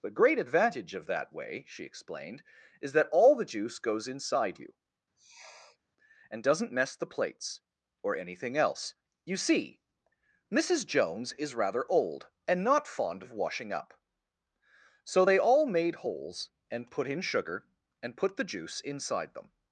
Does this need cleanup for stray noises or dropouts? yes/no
yes